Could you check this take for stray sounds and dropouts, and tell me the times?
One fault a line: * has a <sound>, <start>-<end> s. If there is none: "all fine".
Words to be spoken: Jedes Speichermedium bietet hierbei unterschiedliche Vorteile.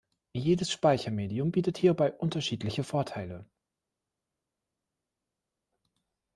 all fine